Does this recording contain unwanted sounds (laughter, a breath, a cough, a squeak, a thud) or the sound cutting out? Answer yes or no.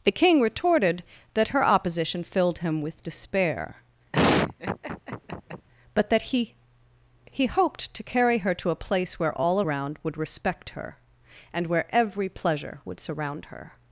yes